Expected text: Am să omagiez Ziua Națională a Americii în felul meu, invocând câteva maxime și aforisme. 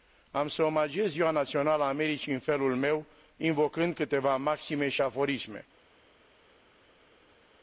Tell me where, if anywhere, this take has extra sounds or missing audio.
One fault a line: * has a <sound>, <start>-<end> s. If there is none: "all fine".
all fine